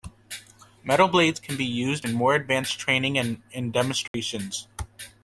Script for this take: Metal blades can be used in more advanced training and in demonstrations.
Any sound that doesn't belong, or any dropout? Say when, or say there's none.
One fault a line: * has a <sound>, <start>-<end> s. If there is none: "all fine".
* has a dropout, 4.1-4.1 s